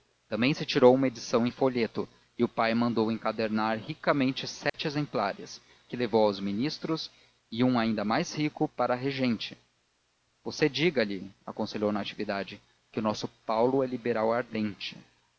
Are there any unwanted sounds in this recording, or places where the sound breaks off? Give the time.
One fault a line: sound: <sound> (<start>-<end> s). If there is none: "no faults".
sound: dropout (4.7-4.7 s)